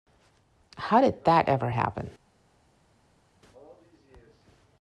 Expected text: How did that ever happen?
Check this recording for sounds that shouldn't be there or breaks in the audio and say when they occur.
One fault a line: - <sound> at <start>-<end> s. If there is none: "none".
none